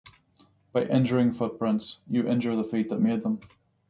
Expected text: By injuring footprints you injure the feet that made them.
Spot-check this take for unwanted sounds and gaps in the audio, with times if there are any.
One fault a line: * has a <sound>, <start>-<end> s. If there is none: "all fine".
all fine